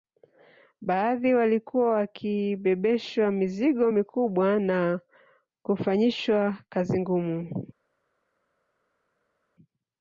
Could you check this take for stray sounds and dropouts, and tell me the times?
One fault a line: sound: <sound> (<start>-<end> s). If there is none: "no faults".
no faults